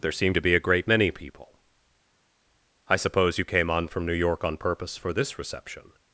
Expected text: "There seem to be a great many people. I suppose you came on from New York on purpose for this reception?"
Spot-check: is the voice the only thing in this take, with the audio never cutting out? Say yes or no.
yes